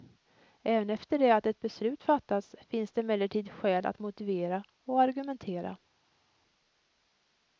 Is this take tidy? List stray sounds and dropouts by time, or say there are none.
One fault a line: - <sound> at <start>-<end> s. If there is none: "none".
none